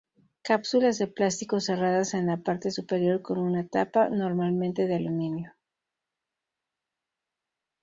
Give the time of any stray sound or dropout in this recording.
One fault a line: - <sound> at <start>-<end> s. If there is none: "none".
none